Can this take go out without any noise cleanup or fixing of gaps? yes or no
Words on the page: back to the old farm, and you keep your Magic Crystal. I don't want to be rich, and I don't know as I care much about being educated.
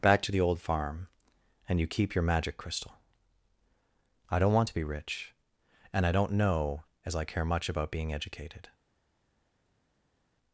yes